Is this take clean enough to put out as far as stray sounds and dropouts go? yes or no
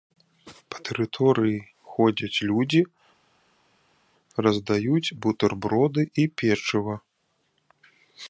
yes